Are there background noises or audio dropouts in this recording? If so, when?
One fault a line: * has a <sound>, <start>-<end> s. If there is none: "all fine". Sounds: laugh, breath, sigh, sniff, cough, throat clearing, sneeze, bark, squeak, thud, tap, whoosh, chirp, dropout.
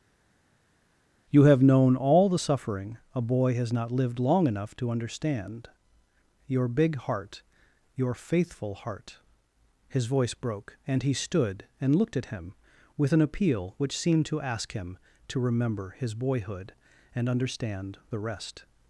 all fine